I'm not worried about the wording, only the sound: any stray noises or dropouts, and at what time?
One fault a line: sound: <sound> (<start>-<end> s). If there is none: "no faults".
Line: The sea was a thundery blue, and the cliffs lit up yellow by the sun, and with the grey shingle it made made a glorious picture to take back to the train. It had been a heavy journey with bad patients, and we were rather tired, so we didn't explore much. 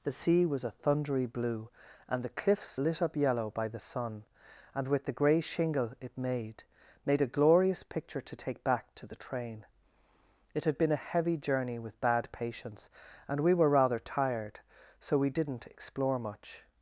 no faults